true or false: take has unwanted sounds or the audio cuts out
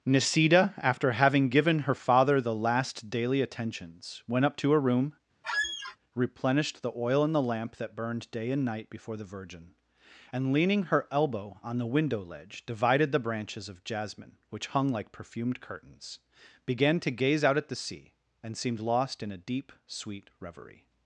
true